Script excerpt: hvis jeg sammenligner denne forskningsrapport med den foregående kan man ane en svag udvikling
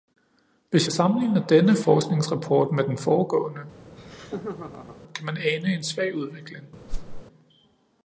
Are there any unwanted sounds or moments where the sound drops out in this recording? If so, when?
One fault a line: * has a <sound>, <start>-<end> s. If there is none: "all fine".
* has a laugh, 3.8-5.0 s
* has a whoosh, 6.9-7.2 s